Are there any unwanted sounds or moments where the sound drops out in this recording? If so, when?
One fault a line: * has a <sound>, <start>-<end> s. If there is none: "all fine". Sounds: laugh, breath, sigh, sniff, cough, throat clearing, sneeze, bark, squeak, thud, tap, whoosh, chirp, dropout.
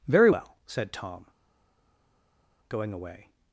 all fine